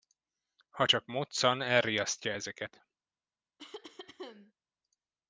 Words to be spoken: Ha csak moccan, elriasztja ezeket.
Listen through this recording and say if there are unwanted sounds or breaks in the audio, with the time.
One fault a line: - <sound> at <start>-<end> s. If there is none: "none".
- cough at 3.6-4.5 s